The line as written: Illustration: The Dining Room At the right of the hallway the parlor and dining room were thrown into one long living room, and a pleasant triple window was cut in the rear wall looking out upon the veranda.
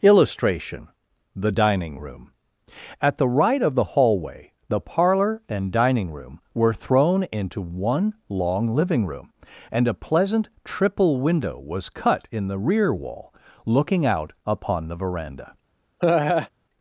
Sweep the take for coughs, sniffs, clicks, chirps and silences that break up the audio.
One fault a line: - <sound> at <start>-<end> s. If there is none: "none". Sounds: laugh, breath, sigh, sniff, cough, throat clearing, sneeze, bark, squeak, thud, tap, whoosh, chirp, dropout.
- laugh at 16.0-16.5 s